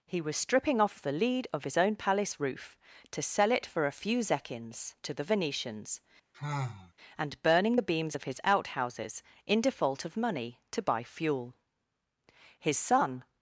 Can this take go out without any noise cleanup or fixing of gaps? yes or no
no